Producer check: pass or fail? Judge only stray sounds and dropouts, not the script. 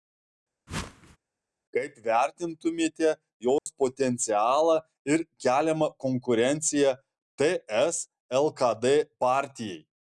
fail